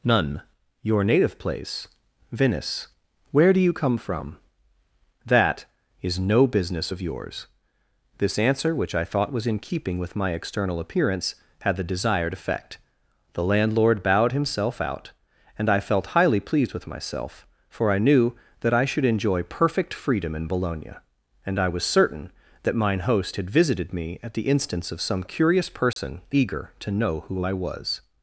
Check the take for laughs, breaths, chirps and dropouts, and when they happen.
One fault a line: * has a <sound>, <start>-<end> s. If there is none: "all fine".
* has a dropout, 25.9-26.0 s